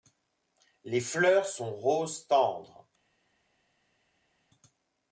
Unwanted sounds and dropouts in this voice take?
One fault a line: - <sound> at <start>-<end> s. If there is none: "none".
none